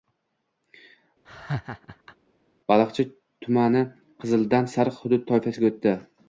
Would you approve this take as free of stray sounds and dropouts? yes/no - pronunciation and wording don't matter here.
no